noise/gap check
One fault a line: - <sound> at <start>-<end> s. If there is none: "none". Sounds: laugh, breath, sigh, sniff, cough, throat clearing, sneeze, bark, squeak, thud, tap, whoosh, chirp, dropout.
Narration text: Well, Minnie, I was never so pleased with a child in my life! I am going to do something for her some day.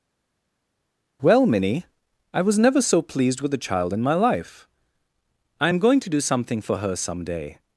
none